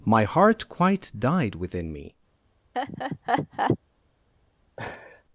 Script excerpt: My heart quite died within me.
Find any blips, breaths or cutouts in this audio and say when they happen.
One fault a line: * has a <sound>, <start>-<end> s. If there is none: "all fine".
* has a laugh, 2.7-3.8 s
* has a laugh, 4.8-5.2 s